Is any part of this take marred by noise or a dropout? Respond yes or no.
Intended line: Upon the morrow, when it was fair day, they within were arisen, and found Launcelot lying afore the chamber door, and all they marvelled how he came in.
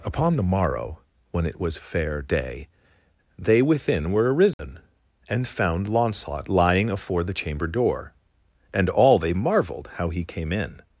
yes